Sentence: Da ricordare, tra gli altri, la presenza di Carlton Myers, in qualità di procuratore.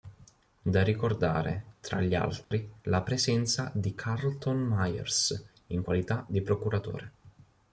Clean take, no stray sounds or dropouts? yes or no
no